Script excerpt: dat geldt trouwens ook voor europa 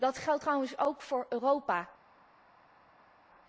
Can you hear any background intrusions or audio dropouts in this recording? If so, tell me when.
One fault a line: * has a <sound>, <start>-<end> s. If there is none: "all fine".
all fine